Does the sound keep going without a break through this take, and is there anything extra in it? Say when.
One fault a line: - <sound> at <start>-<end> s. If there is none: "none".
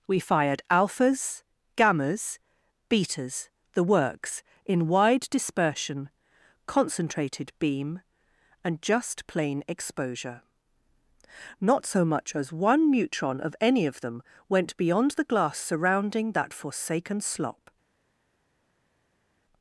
none